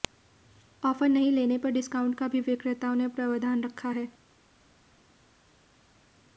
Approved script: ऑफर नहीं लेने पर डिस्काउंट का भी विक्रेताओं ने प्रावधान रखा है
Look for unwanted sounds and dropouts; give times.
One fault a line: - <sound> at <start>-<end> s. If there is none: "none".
none